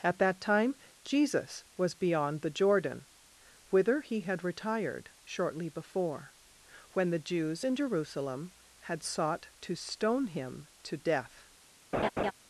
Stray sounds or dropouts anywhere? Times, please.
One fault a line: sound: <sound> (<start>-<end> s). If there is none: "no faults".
sound: laugh (11.9-12.3 s)